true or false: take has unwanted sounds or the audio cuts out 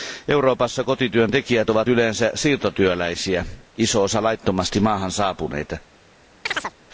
true